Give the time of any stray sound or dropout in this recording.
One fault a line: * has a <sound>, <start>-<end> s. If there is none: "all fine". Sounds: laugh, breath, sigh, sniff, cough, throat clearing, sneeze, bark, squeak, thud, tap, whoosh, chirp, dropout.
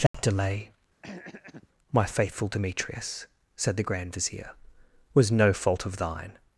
* has a dropout, 0.1-0.1 s
* has a throat clearing, 1.0-1.7 s